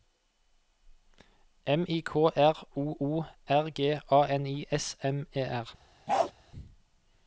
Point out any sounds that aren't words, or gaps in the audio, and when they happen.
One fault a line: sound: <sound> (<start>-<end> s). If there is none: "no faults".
sound: bark (6.1-6.3 s)